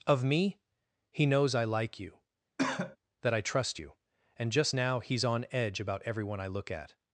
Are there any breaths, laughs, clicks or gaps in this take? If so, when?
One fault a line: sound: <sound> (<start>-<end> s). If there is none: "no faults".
sound: cough (2.6-3.0 s)